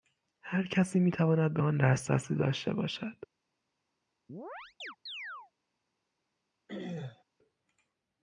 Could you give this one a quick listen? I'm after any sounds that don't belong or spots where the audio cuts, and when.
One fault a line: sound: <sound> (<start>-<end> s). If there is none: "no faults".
sound: chirp (4.3-5.5 s)
sound: throat clearing (6.7-7.2 s)